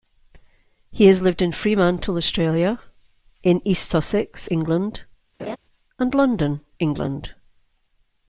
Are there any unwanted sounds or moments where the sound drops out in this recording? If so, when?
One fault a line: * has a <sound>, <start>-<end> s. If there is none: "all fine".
* has a laugh, 5.4-5.6 s